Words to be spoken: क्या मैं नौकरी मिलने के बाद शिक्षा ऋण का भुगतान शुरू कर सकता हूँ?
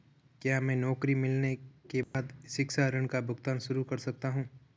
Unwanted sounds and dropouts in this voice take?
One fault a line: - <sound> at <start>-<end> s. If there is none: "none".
- dropout at 2.0-2.1 s